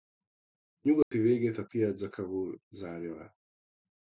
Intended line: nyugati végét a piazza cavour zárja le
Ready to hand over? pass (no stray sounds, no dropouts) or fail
fail